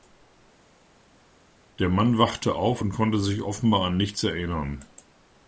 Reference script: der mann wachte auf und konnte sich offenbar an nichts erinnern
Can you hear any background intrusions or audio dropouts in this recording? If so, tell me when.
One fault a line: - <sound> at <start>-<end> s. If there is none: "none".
none